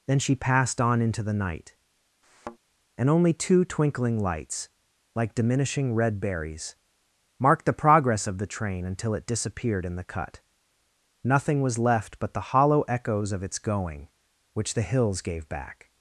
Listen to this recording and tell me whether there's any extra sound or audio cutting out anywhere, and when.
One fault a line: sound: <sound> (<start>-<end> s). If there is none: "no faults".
sound: thud (2.2-2.6 s)